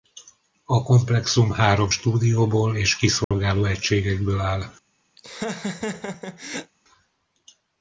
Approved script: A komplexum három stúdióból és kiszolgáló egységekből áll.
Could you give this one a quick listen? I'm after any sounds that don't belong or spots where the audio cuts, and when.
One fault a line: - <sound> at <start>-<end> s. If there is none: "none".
- dropout at 3.2-3.3 s
- laugh at 5.2-6.7 s